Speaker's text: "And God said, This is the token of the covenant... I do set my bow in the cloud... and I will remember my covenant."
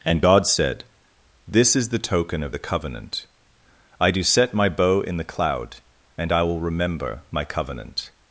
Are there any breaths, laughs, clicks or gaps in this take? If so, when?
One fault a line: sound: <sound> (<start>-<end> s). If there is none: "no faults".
no faults